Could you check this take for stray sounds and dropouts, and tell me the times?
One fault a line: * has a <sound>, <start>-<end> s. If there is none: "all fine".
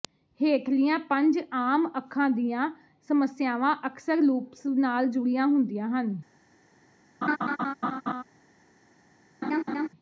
* has a laugh, 7.2-8.2 s
* has a laugh, 9.4-9.9 s